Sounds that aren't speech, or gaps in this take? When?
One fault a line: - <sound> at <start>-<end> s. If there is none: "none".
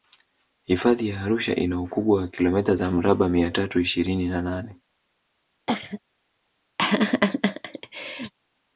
- cough at 5.7-6.0 s
- laugh at 6.8-8.3 s